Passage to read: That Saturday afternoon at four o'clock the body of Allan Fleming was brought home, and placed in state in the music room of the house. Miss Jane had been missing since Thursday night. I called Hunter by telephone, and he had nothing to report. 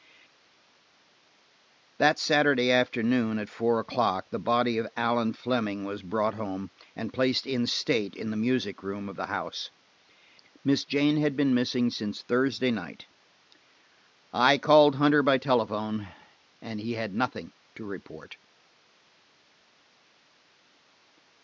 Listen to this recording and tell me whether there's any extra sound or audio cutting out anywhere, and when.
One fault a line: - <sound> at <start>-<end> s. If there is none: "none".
none